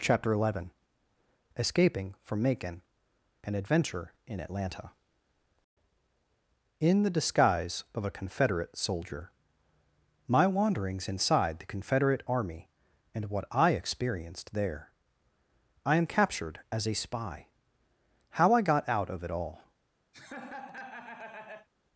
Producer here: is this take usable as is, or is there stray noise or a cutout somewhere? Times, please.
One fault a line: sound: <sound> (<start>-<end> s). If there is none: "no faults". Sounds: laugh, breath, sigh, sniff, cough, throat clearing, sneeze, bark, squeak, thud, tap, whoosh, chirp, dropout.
sound: laugh (20.1-21.7 s)